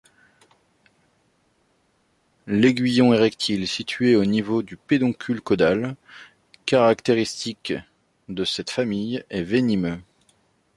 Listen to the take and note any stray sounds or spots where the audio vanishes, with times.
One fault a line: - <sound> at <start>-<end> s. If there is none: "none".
none